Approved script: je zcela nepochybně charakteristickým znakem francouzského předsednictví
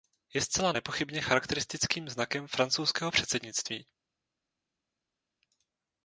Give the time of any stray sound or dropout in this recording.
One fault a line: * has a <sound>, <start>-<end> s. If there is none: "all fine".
all fine